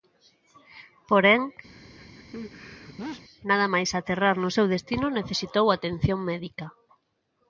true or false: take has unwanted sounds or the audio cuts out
true